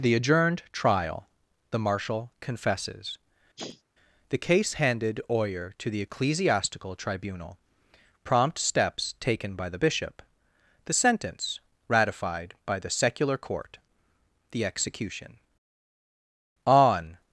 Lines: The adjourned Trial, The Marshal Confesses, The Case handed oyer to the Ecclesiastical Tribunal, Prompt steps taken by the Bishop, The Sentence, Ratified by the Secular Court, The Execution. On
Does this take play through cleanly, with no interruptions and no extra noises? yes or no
no